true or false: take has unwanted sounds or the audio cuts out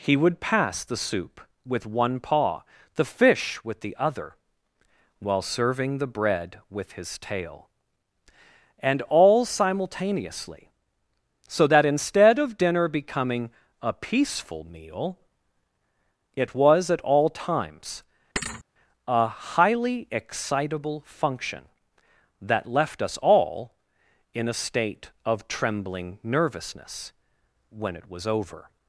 true